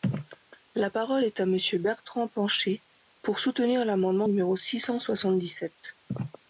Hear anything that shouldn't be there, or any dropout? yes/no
no